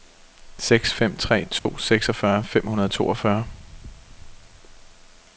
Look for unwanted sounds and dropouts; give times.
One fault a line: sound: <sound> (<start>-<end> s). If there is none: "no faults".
sound: dropout (1.6-1.7 s)